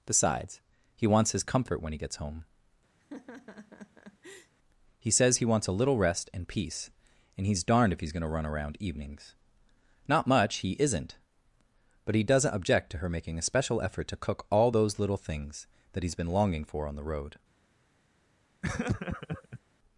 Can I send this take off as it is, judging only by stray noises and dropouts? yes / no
no